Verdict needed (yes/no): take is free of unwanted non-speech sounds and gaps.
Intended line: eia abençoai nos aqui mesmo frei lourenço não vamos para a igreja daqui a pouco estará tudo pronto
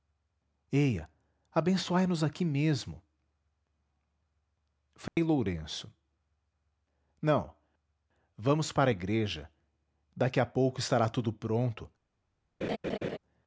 no